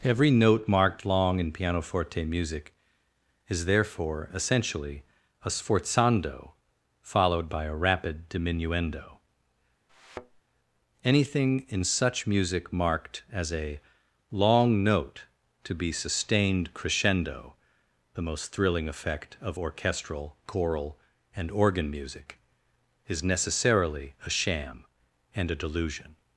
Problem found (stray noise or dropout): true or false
true